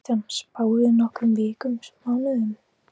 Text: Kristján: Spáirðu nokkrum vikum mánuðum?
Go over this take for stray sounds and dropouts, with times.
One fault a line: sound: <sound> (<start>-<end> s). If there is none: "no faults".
no faults